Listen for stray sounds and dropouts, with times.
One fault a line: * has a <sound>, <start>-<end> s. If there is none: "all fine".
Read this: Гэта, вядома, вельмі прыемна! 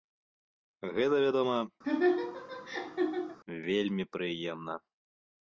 * has a laugh, 1.8-3.4 s